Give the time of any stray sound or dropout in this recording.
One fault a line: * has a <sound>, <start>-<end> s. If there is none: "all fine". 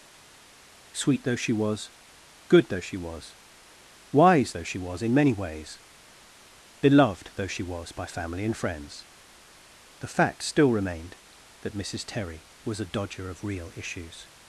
all fine